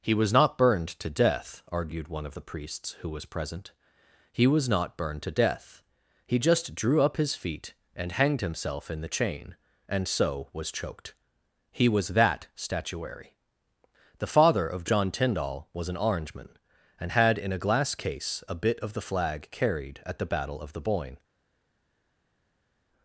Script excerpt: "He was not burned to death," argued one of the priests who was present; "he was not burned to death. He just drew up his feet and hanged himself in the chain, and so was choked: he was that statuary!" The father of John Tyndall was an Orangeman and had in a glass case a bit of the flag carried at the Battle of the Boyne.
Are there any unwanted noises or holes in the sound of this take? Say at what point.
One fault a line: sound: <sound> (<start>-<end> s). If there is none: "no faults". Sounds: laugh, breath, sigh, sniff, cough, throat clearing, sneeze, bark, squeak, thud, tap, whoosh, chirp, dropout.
no faults